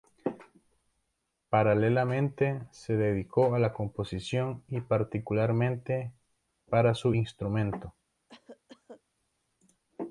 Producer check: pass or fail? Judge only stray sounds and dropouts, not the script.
fail